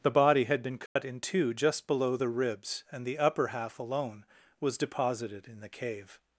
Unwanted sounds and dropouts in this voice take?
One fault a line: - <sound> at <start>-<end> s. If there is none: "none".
- dropout at 0.9-1.0 s